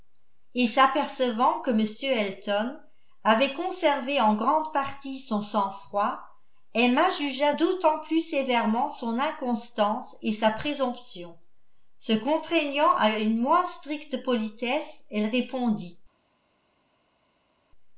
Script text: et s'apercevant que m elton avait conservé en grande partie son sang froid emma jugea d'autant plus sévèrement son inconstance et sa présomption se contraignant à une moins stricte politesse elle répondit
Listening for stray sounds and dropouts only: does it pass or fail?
pass